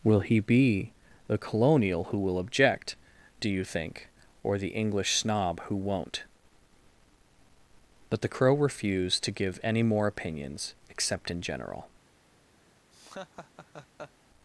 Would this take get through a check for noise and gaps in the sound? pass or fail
fail